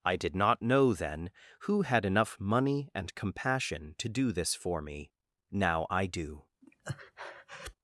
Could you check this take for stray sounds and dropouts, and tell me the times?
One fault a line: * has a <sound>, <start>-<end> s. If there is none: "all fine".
* has a breath, 6.6-7.8 s